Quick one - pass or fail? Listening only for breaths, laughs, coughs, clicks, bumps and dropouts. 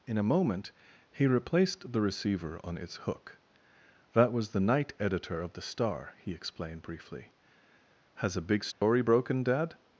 fail